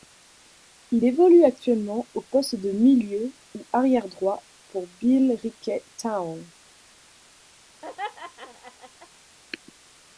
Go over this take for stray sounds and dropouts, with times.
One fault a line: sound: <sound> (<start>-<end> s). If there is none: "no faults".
sound: laugh (7.8-9.1 s)